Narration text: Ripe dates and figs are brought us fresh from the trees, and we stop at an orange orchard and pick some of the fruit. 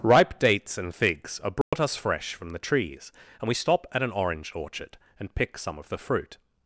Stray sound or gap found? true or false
true